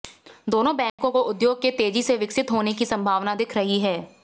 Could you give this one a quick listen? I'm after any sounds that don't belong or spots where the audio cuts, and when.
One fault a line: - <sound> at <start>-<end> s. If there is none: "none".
- dropout at 0.9-1.0 s